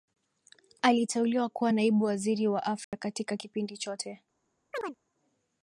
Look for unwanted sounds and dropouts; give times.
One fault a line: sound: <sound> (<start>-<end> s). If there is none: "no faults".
sound: dropout (2.8-2.9 s)
sound: chirp (4.7-5.0 s)